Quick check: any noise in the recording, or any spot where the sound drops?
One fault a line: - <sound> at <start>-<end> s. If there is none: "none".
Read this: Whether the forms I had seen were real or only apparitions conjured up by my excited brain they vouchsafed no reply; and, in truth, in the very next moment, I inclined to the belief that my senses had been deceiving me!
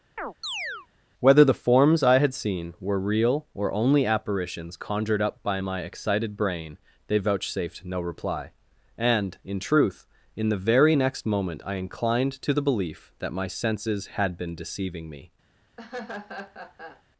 - chirp at 0.2-0.9 s
- laugh at 15.8-17.0 s